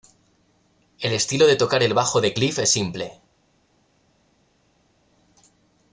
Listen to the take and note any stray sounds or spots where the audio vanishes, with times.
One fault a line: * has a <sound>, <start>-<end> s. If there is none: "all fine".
all fine